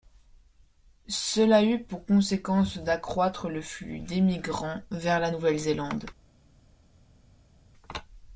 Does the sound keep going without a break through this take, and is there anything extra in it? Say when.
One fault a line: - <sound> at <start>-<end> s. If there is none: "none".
none